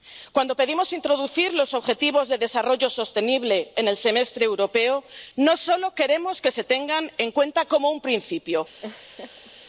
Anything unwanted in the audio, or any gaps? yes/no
yes